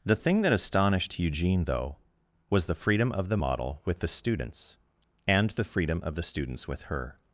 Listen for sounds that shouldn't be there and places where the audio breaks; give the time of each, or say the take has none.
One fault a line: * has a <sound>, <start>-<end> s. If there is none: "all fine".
all fine